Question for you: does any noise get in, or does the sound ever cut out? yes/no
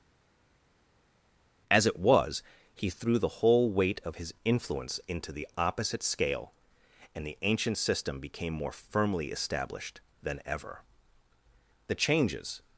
no